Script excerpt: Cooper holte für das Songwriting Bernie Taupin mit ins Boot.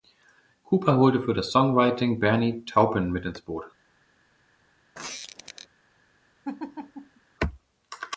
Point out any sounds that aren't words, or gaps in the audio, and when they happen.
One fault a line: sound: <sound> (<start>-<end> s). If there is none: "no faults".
sound: squeak (4.9-5.7 s)
sound: laugh (6.4-7.2 s)